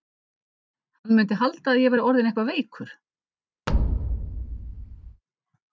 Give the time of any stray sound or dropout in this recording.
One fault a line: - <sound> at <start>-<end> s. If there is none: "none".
- thud at 3.7-5.2 s